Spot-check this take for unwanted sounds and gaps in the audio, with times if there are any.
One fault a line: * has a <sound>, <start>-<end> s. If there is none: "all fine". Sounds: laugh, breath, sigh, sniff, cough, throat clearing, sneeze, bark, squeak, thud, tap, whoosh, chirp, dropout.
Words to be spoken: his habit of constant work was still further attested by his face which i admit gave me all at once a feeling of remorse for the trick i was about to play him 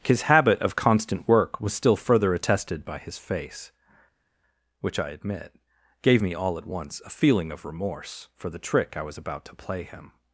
all fine